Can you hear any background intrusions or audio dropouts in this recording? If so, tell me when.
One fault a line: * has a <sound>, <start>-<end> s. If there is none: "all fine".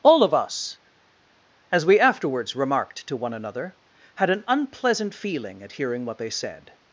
all fine